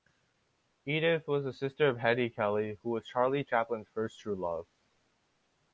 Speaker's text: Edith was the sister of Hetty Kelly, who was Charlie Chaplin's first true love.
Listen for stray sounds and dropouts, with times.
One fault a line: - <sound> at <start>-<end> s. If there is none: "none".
none